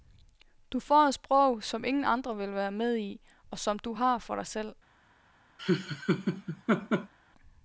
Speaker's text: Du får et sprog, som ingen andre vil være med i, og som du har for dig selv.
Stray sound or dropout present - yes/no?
yes